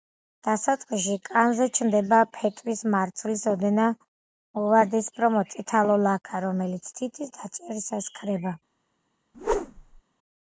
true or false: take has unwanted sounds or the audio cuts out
true